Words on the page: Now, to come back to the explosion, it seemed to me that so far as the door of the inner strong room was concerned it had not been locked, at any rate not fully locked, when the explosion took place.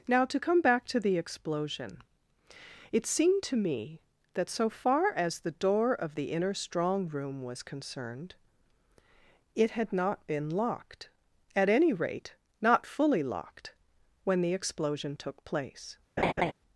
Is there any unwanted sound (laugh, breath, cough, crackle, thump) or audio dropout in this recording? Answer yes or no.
yes